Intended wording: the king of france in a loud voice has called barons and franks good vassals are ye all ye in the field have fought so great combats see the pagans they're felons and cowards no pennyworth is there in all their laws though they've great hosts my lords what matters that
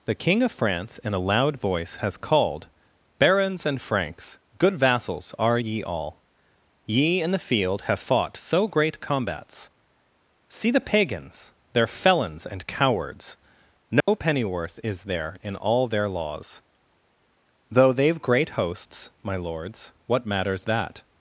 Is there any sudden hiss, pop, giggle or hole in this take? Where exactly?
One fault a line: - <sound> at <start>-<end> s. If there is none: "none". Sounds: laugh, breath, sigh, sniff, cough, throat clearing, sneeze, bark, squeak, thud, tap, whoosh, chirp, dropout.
- dropout at 14.0-14.1 s